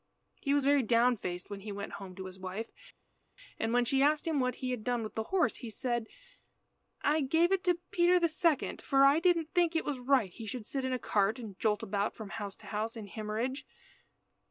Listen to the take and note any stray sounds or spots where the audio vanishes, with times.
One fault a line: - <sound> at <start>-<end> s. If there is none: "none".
none